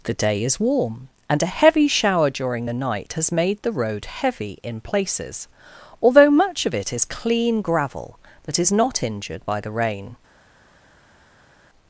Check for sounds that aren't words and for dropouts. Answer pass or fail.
pass